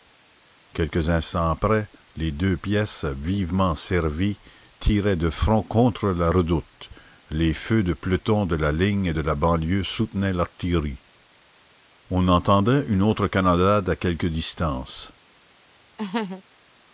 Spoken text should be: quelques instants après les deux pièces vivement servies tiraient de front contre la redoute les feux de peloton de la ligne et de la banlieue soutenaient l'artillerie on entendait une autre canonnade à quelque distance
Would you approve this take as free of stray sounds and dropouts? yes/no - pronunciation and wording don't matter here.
no